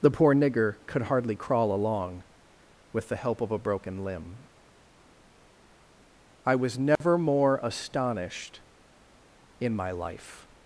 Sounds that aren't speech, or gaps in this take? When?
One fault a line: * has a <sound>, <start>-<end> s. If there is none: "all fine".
* has a dropout, 7.0-7.0 s